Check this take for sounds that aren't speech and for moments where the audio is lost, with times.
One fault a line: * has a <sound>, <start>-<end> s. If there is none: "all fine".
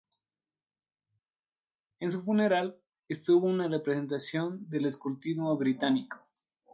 all fine